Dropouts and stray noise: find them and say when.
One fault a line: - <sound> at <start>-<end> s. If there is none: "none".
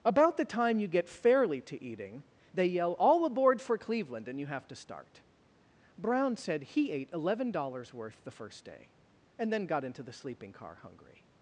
none